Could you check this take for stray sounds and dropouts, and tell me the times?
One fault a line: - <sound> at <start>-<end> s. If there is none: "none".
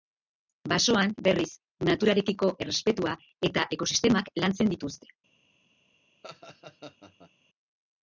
- laugh at 6.2-7.3 s